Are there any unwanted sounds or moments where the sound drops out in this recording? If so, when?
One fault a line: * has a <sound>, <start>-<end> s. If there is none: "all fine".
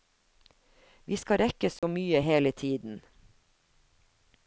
* has a dropout, 1.8-1.8 s